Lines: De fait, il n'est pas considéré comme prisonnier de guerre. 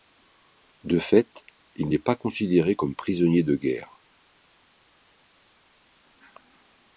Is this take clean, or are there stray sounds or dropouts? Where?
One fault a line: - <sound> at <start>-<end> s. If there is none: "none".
none